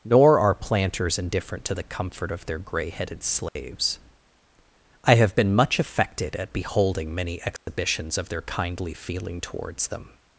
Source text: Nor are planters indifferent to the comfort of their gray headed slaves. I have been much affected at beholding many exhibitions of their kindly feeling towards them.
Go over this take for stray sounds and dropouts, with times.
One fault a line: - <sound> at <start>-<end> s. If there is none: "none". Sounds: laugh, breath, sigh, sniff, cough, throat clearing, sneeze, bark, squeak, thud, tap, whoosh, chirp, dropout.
- dropout at 3.5-3.6 s
- dropout at 7.6-7.7 s